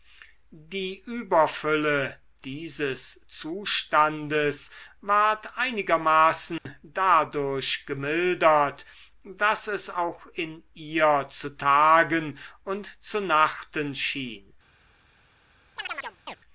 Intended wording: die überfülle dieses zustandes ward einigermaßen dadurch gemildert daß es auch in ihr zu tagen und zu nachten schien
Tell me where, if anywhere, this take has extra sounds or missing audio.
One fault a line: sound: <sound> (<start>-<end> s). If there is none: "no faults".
sound: dropout (6.6-6.7 s)
sound: chirp (15.8-16.4 s)